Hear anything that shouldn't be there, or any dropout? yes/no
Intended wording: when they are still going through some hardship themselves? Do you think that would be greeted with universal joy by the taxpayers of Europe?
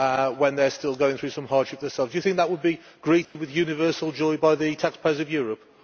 yes